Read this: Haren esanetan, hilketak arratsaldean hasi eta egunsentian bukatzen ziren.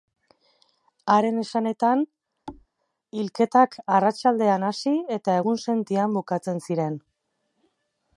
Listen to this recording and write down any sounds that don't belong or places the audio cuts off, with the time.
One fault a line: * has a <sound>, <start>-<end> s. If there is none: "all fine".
* has a thud, 2.5-2.7 s